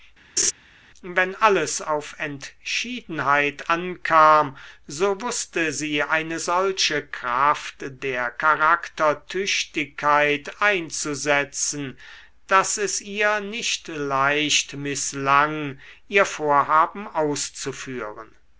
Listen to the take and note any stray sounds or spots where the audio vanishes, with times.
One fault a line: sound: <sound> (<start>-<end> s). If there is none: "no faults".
sound: laugh (0.4-0.5 s)